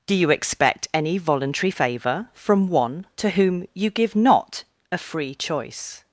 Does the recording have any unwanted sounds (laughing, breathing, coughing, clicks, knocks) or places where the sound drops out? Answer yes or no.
no